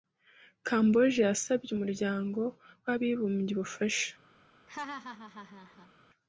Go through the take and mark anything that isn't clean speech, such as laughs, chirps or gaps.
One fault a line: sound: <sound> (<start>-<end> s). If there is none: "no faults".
sound: laugh (4.7-5.9 s)